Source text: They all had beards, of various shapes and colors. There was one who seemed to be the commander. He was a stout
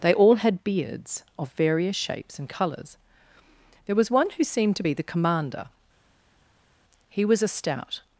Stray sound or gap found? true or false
false